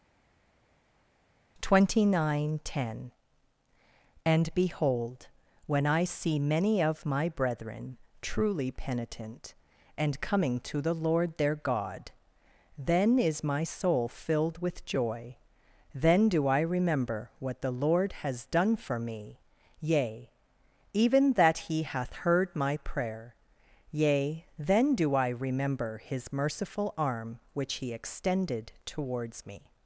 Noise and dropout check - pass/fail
pass